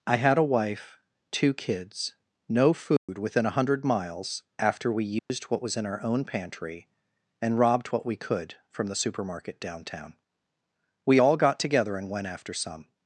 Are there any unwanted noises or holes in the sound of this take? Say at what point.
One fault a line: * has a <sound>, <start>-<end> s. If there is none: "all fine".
* has a dropout, 3.0-3.1 s
* has a dropout, 5.2-5.3 s